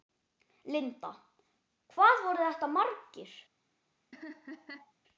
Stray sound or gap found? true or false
true